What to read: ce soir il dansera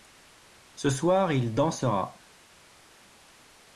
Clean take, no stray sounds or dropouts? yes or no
yes